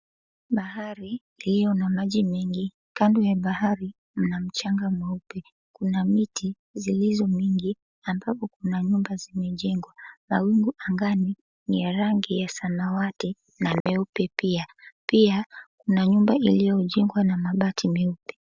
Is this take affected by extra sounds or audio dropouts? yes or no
yes